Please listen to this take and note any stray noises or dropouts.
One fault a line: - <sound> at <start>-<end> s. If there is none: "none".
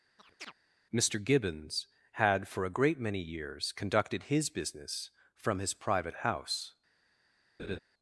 - chirp at 0.2-0.5 s
- laugh at 7.6-7.8 s